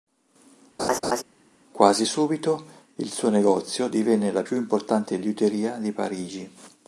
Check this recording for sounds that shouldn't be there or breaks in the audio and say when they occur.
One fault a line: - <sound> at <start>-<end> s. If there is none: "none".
- laugh at 0.8-1.2 s